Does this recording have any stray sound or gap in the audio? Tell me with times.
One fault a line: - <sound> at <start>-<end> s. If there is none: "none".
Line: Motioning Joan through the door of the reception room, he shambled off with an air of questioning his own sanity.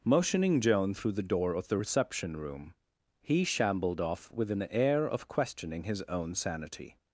none